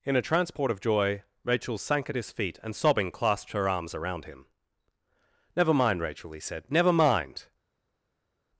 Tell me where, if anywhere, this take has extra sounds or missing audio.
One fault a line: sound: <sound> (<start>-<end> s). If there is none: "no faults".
no faults